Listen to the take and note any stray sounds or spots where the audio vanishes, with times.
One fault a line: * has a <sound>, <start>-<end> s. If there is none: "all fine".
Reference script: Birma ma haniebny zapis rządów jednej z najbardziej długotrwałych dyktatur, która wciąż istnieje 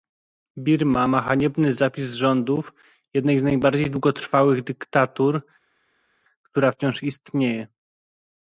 all fine